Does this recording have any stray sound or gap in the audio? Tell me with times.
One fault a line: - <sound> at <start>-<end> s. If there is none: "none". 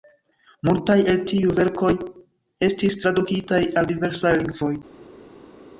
none